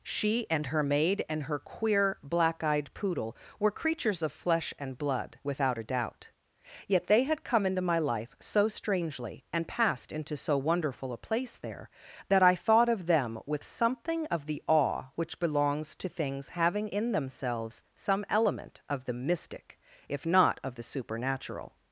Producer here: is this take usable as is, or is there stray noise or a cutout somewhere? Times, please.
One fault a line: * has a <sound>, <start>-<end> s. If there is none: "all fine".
all fine